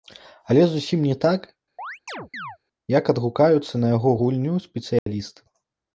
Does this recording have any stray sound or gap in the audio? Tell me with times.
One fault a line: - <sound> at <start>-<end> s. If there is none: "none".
- chirp at 1.8-2.6 s
- dropout at 5.0-5.1 s